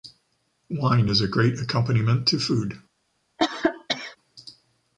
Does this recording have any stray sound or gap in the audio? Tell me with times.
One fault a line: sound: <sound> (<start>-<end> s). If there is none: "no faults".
sound: cough (3.4-4.2 s)